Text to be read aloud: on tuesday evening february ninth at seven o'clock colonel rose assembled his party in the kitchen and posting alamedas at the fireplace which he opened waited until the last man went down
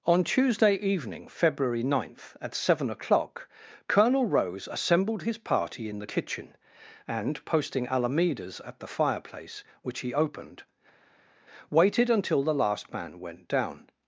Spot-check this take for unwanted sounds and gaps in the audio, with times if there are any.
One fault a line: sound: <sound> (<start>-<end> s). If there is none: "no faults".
no faults